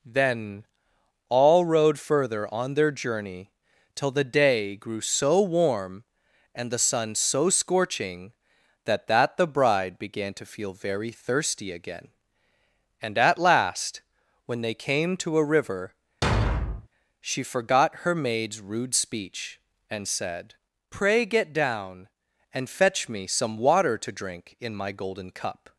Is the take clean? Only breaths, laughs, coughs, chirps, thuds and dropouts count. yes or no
no